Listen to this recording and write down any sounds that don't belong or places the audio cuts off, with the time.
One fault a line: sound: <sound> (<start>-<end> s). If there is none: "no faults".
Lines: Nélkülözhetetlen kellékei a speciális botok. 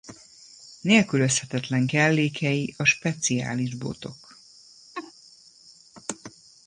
sound: laugh (4.9-5.1 s)